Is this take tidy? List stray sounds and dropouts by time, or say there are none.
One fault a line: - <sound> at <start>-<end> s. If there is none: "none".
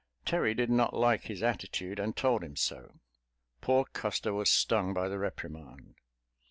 none